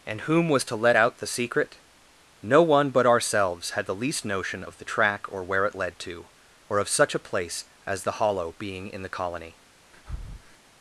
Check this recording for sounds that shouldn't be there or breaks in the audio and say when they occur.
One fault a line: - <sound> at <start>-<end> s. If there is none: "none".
- breath at 9.9-10.6 s